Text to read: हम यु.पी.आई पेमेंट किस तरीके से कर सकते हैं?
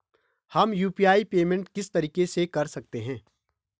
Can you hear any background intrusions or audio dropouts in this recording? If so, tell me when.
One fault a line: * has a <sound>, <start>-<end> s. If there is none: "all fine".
all fine